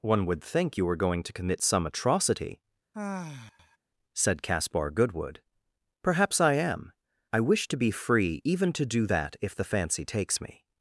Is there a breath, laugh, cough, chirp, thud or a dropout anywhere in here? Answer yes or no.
yes